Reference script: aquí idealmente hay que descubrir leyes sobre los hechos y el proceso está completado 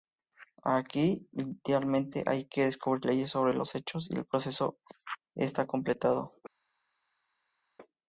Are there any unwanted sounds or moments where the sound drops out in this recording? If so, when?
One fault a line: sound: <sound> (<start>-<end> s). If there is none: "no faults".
no faults